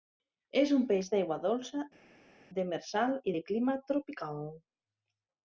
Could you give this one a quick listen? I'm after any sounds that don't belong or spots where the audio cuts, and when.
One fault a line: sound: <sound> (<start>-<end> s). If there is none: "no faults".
no faults